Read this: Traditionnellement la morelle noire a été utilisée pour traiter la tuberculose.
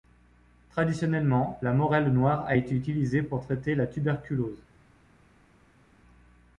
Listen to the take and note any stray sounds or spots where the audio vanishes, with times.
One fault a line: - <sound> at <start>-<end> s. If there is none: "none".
none